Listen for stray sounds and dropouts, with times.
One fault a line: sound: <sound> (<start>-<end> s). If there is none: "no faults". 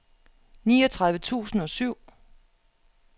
no faults